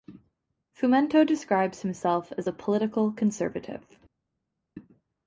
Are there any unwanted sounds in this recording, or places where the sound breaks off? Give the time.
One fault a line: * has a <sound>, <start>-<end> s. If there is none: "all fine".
all fine